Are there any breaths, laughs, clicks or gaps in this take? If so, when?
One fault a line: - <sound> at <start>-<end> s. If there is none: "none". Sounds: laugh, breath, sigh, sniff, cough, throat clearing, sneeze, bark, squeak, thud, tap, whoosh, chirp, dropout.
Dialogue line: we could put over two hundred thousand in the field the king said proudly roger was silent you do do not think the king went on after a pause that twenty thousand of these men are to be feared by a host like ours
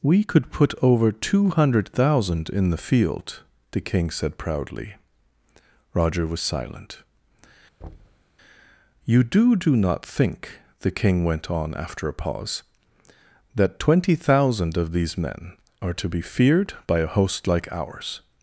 - thud at 7.8-8.2 s